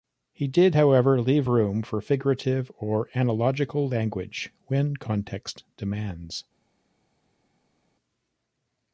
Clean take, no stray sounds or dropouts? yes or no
yes